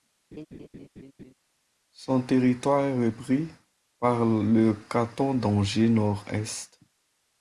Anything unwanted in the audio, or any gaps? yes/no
yes